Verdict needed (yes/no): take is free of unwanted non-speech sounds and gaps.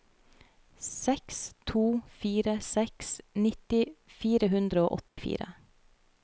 no